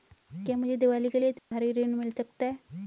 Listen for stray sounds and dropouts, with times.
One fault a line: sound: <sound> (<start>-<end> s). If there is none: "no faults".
sound: dropout (1.4-1.5 s)